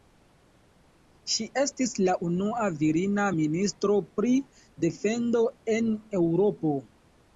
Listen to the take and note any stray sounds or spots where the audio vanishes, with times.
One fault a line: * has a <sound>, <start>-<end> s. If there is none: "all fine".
all fine